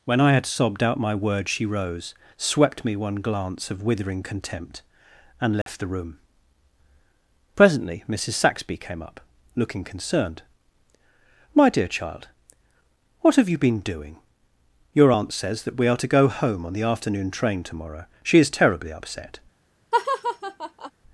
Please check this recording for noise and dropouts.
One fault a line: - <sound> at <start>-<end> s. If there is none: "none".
- dropout at 5.6-5.7 s
- laugh at 19.9-20.9 s